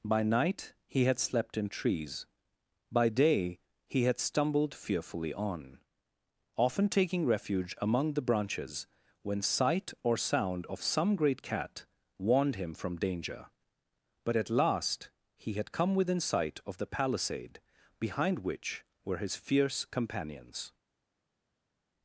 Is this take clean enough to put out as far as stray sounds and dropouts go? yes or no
yes